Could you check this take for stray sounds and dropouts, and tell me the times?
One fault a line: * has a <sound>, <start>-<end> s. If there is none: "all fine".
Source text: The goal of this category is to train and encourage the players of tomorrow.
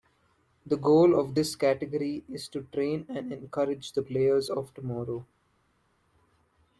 all fine